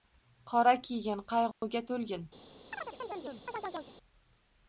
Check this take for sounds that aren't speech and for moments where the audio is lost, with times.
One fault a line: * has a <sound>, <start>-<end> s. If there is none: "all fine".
* has a dropout, 1.5-1.6 s
* has a chirp, 2.7-3.9 s